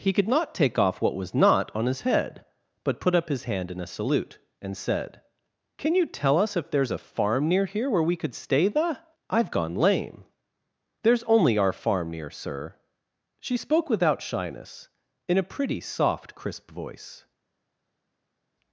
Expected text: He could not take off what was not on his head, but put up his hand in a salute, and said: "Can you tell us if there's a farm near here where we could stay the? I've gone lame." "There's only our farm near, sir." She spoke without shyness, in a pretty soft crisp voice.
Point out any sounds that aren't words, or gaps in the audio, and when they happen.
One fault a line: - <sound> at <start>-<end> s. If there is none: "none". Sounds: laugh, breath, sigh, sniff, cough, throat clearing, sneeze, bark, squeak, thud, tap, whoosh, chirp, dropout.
none